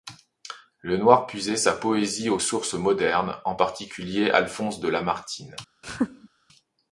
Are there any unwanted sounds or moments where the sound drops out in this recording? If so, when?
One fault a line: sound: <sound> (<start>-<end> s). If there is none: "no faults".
sound: laugh (5.8-6.3 s)